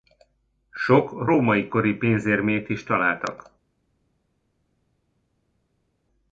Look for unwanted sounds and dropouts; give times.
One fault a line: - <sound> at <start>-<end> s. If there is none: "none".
none